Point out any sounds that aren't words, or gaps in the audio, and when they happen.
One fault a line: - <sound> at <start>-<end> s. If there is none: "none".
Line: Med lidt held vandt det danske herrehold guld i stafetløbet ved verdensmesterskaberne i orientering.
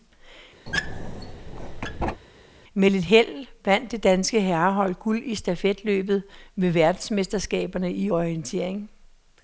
- squeak at 0.7-2.2 s